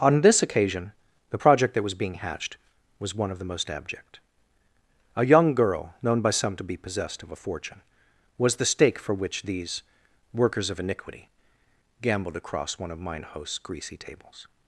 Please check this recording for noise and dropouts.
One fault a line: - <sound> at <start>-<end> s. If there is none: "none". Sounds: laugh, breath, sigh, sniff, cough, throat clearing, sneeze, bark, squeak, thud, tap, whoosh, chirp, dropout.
none